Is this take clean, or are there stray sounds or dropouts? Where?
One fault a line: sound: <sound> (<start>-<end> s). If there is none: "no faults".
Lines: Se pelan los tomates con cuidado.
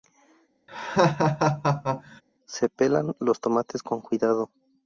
sound: laugh (0.7-2.2 s)